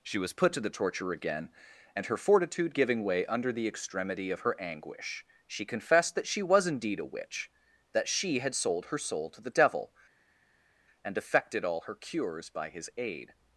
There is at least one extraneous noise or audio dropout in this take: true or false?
false